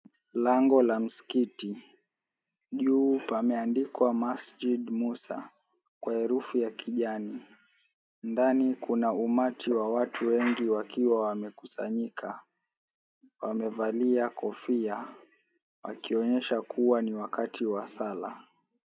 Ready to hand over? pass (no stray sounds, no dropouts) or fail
pass